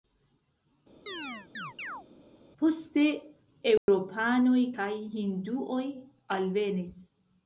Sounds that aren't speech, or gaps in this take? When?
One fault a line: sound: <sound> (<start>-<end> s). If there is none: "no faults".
sound: chirp (1.1-2.1 s)
sound: dropout (3.8-3.9 s)